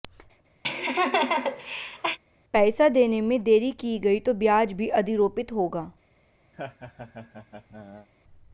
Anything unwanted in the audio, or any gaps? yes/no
yes